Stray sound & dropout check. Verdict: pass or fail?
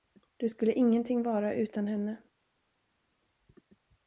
pass